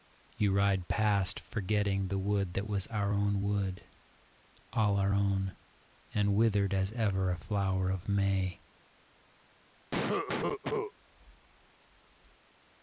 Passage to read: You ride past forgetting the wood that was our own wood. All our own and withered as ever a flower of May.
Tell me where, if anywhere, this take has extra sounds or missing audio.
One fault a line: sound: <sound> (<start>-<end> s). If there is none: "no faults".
sound: cough (9.9-10.9 s)